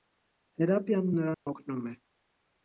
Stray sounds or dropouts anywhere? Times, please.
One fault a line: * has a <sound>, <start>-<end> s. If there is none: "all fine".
* has a dropout, 1.3-1.5 s